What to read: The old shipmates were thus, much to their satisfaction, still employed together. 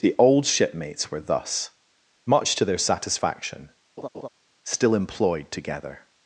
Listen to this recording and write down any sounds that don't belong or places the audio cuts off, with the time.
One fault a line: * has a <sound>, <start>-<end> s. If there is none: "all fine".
* has a laugh, 4.0-4.3 s